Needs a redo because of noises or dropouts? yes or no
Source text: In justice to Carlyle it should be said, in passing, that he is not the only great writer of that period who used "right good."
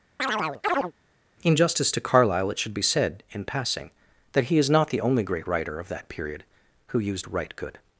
yes